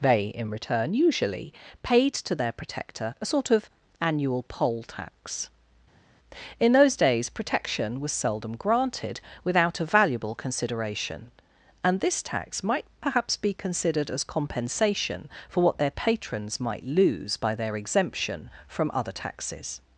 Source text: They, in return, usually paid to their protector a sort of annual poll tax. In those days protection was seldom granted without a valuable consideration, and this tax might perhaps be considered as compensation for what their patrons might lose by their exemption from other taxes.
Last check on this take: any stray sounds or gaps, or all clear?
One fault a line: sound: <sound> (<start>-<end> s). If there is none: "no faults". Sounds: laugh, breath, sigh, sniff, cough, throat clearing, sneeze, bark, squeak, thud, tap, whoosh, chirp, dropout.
no faults